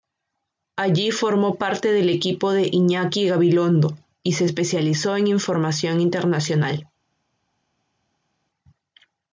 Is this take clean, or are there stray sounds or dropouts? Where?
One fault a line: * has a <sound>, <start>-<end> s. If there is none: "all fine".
all fine